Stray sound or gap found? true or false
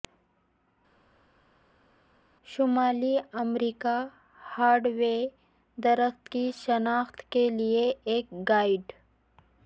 false